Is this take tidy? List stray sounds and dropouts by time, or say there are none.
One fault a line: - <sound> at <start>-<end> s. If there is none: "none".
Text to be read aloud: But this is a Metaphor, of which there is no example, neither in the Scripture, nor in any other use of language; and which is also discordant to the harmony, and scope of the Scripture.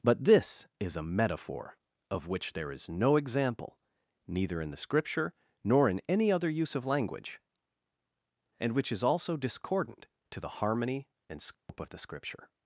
- dropout at 11.5-11.7 s